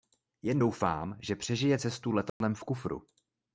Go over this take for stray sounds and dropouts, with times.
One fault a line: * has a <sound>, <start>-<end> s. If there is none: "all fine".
* has a dropout, 2.3-2.4 s